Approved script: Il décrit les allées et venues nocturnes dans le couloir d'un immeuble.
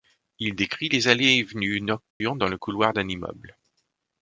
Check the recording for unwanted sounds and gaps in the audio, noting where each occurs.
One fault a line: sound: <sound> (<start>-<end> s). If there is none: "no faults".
sound: dropout (2.1-2.2 s)